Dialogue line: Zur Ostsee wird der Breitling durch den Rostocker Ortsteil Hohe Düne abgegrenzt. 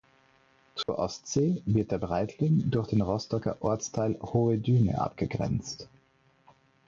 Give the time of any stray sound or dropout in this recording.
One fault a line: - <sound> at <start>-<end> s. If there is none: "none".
- dropout at 0.8-0.9 s